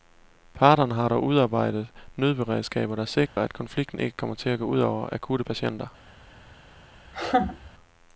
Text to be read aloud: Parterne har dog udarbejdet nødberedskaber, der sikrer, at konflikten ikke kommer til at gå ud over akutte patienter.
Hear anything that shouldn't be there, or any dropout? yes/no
yes